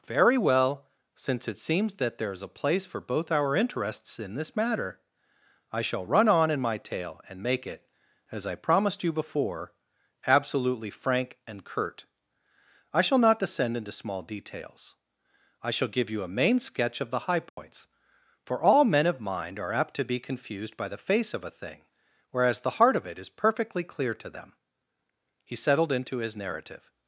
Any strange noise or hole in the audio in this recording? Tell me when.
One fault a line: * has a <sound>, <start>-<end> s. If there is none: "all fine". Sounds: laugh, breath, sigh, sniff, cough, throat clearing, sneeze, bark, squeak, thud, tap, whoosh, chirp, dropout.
* has a dropout, 17.5-17.6 s